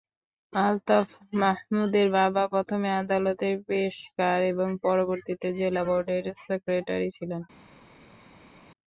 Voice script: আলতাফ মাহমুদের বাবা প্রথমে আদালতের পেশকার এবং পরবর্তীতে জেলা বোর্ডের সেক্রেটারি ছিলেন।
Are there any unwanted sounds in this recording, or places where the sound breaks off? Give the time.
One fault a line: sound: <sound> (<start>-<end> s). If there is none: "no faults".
no faults